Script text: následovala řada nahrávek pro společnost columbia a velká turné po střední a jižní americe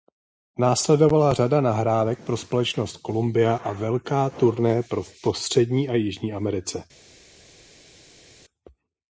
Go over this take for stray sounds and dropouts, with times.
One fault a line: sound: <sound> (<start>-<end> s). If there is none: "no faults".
no faults